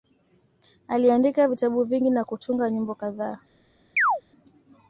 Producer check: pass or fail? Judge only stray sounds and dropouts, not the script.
fail